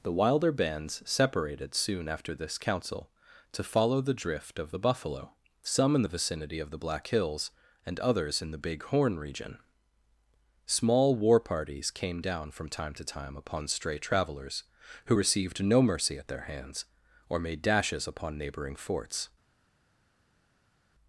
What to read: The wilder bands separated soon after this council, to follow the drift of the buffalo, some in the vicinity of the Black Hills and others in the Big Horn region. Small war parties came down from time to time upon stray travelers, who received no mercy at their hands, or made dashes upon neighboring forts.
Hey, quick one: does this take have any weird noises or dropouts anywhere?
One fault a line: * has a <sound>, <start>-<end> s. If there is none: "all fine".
all fine